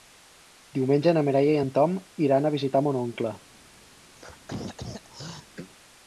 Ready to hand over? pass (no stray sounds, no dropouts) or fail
fail